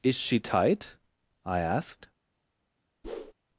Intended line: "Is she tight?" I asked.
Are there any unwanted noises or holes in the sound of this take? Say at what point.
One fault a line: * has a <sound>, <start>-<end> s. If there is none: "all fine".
* has a whoosh, 3.0-3.3 s